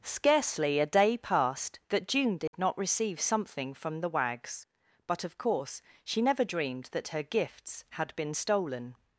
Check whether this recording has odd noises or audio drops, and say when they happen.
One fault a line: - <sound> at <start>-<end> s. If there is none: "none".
- dropout at 2.5-2.5 s